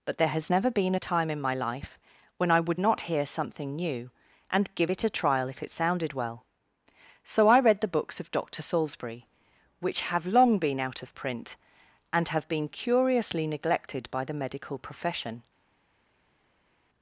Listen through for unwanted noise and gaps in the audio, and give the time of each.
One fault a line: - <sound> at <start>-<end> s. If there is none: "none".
none